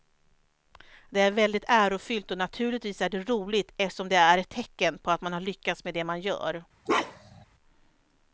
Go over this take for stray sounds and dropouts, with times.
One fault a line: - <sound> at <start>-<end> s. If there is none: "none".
- bark at 6.9-7.5 s